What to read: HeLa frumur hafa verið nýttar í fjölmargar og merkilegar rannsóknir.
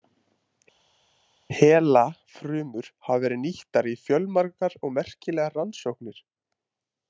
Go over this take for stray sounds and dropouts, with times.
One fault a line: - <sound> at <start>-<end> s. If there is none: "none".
none